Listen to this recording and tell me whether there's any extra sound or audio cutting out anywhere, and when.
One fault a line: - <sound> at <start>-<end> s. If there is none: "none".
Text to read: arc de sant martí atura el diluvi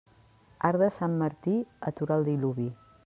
none